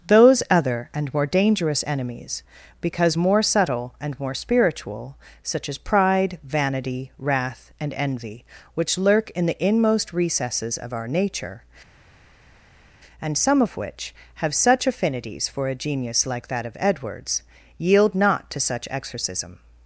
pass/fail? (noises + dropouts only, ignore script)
pass